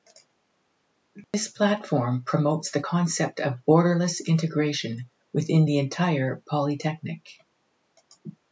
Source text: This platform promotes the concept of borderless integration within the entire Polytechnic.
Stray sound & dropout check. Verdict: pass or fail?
fail